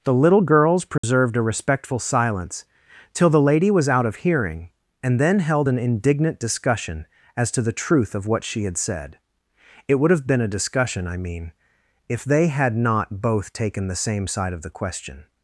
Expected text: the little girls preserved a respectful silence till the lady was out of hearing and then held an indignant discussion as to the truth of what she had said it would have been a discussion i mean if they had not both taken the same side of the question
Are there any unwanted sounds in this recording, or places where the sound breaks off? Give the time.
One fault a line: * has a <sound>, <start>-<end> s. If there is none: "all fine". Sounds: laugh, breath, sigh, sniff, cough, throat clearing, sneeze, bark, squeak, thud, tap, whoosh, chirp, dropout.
* has a dropout, 1.0-1.0 s